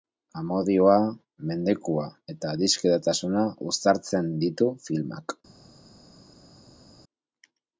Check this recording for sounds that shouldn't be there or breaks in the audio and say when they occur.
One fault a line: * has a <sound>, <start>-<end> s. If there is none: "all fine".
all fine